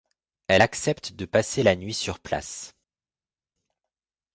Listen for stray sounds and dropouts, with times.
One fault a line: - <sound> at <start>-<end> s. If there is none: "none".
none